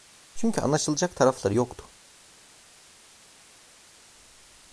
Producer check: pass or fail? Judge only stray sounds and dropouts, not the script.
pass